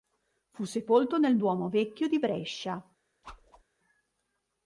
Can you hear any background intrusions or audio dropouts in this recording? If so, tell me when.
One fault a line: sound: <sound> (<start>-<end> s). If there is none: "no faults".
sound: whoosh (3.2-3.6 s)